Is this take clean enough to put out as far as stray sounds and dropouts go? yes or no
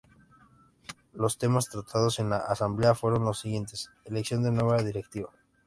yes